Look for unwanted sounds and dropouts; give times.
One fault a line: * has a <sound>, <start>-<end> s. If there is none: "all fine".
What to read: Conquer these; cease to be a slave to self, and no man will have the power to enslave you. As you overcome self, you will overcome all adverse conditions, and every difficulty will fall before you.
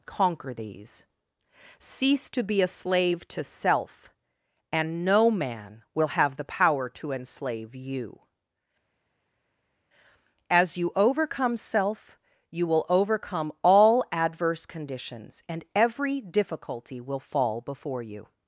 all fine